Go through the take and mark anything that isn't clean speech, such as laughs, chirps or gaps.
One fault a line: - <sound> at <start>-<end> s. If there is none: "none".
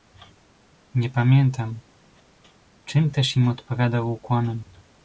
none